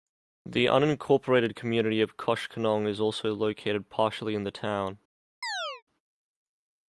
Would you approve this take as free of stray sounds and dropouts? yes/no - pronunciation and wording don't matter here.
no